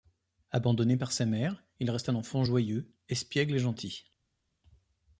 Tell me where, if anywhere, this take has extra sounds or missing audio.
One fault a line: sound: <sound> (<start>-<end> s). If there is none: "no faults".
no faults